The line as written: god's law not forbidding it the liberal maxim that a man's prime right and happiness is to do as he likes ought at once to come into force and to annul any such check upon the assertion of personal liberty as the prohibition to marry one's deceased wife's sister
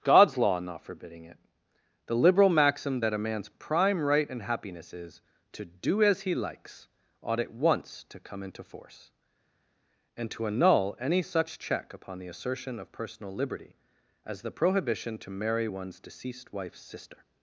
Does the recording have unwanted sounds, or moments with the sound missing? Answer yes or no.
no